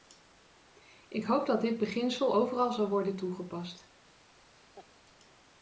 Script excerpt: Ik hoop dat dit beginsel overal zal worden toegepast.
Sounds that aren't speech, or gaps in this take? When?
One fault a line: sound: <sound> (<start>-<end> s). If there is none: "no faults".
sound: laugh (4.7-4.9 s)